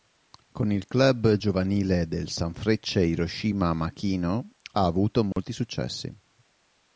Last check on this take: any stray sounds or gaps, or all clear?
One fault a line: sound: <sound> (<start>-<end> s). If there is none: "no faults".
sound: dropout (5.3-5.4 s)